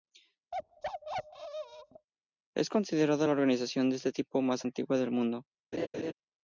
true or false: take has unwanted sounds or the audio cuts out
true